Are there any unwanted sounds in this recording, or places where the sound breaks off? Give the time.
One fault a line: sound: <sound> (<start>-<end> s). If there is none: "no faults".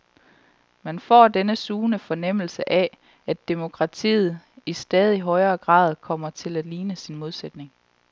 no faults